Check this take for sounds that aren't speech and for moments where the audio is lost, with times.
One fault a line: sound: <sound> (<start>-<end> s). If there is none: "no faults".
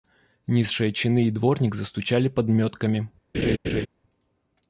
sound: laugh (3.3-3.9 s)